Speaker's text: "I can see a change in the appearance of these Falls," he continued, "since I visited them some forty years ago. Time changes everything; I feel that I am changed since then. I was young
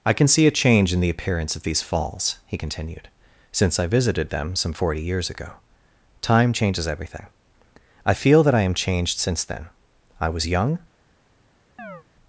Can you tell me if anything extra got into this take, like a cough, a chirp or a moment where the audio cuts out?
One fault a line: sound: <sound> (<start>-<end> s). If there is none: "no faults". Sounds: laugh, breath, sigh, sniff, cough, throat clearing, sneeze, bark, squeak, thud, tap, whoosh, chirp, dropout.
sound: chirp (11.8-12.0 s)